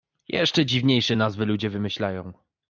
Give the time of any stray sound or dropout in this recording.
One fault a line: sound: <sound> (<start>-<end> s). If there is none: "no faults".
no faults